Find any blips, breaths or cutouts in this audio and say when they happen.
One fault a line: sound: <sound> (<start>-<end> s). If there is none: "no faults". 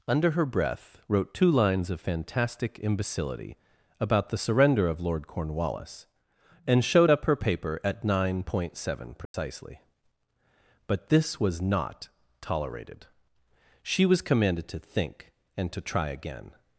sound: dropout (9.3-9.3 s)